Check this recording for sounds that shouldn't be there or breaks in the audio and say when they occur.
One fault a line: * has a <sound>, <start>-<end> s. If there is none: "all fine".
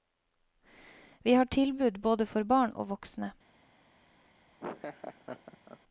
* has a laugh, 4.6-5.8 s